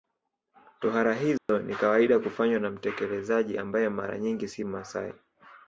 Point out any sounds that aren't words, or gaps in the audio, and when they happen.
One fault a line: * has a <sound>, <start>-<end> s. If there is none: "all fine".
* has a dropout, 1.4-1.5 s